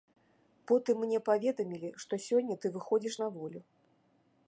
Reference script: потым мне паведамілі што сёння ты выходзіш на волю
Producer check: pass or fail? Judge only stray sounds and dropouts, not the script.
pass